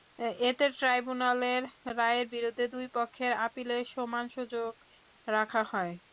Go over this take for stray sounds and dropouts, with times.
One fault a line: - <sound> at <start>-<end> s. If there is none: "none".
none